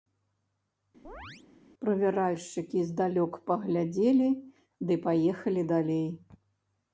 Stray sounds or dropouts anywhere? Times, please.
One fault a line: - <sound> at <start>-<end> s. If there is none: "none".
- chirp at 1.0-1.4 s